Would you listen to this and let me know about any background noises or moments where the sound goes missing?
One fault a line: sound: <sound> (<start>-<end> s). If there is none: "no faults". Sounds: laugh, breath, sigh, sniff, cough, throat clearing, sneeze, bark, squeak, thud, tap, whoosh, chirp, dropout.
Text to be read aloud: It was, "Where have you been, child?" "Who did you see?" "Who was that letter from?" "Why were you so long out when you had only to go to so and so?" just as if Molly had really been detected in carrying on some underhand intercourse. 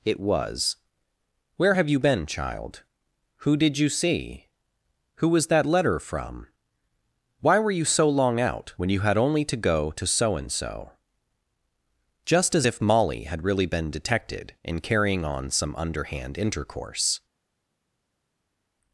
no faults